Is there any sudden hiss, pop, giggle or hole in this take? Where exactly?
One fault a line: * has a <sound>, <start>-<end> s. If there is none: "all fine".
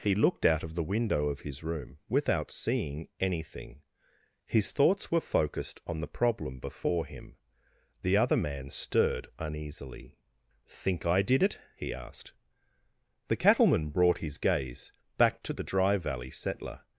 all fine